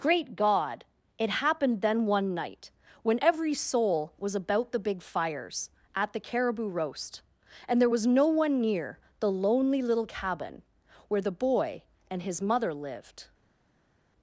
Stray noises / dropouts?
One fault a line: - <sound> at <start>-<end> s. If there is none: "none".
none